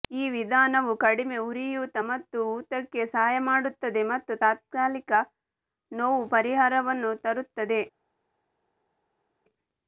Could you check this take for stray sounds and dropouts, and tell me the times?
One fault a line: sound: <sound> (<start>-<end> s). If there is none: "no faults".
no faults